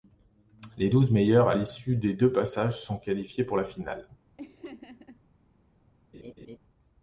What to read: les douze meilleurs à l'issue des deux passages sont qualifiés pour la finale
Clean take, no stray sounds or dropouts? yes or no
no